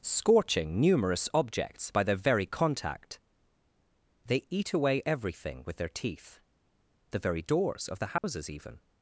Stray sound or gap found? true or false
true